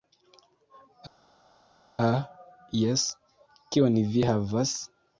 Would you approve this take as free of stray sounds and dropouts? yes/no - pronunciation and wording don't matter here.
yes